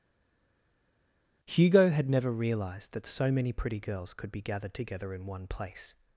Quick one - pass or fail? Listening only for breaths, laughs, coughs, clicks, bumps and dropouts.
pass